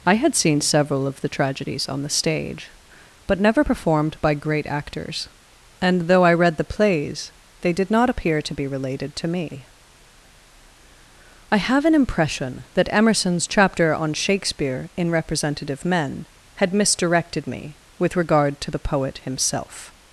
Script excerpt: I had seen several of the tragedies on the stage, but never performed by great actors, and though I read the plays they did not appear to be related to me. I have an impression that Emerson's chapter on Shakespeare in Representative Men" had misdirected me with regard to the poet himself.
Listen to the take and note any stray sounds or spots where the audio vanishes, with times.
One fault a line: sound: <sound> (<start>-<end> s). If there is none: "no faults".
no faults